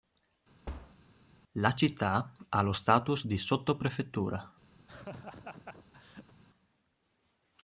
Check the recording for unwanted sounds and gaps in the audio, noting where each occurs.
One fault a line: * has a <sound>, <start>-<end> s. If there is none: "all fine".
* has a thud, 0.7-1.0 s
* has a laugh, 4.8-6.3 s